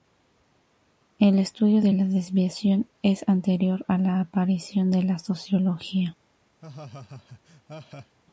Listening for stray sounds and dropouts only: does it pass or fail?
fail